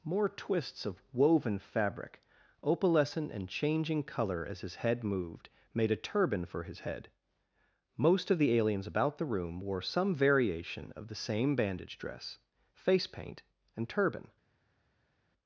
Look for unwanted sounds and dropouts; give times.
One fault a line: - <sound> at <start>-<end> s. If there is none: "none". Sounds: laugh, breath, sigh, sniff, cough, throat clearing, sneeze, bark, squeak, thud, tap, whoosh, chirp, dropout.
none